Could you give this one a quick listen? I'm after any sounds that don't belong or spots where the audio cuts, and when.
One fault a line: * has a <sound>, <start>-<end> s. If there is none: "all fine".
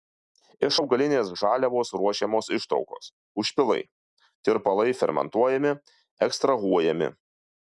all fine